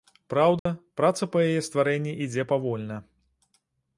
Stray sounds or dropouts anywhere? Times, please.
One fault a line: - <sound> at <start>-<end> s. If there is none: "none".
- dropout at 0.6-0.7 s